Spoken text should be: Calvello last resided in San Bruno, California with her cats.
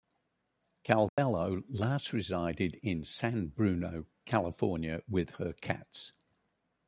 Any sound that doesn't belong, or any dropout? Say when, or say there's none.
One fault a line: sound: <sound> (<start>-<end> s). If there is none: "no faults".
sound: dropout (1.1-1.2 s)